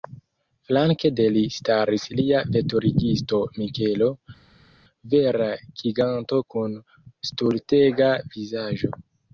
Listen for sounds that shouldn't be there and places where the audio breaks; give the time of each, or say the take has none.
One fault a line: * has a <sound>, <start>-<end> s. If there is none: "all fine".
all fine